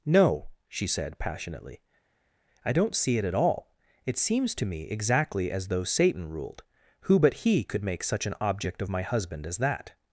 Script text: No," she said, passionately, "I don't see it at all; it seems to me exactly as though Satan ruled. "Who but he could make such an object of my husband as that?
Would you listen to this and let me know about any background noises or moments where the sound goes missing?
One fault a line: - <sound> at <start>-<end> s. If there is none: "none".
none